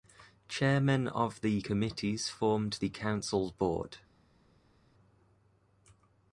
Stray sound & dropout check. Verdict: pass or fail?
pass